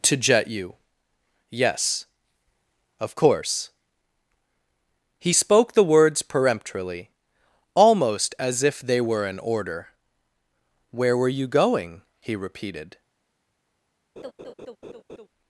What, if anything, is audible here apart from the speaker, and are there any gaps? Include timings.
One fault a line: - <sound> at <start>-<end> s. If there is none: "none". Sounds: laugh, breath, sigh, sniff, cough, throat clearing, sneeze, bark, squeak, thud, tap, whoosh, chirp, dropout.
- laugh at 14.2-15.3 s